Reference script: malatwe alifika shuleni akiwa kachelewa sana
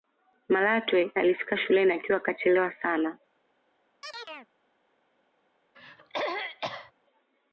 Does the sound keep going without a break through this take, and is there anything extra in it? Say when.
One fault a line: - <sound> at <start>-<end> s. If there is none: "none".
- chirp at 4.0-4.5 s
- throat clearing at 5.7-6.9 s